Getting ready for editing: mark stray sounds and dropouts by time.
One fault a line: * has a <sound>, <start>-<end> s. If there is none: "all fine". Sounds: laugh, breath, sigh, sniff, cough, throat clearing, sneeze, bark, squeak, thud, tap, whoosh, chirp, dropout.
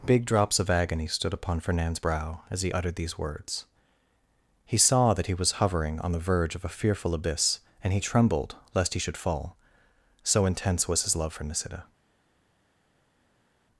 all fine